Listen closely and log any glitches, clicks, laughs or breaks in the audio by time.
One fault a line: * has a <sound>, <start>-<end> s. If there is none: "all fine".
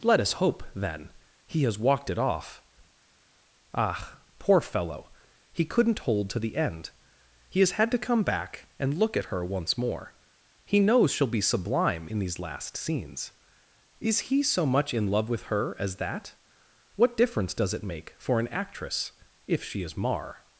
all fine